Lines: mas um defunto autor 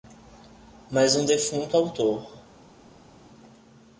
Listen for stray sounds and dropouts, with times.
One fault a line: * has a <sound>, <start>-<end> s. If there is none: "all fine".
all fine